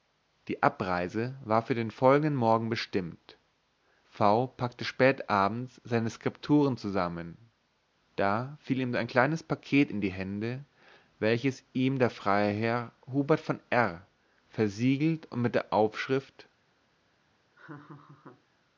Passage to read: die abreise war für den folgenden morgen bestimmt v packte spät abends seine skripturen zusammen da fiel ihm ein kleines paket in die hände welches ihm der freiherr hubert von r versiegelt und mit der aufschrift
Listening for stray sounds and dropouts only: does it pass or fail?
fail